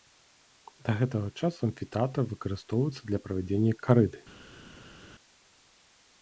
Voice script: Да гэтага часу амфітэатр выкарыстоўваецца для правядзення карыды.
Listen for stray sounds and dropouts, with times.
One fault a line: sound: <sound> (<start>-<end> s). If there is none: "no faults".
no faults